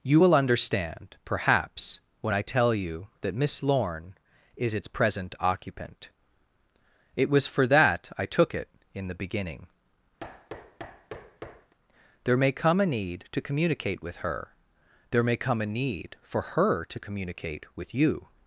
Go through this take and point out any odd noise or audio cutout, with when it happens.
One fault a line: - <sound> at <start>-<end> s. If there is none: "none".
- thud at 10.2-11.7 s